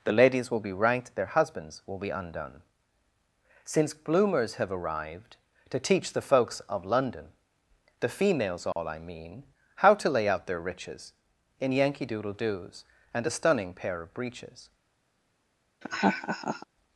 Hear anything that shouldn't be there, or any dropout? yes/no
yes